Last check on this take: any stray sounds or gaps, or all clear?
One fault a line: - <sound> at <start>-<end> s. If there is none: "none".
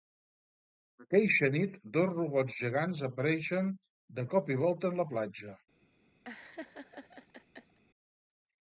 - laugh at 6.2-7.8 s